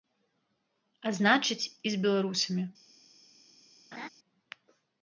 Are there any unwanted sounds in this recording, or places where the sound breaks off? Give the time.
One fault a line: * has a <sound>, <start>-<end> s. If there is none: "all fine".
* has a laugh, 3.9-4.1 s